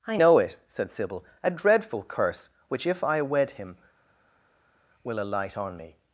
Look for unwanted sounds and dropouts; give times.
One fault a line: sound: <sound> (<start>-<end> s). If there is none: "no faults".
no faults